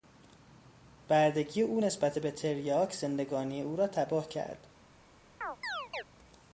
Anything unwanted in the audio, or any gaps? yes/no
yes